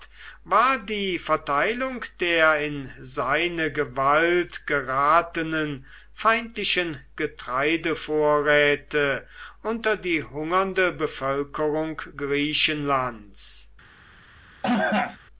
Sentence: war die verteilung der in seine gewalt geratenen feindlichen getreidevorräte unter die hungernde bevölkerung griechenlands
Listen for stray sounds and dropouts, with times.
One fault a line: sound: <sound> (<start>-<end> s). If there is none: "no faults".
sound: cough (14.6-15.2 s)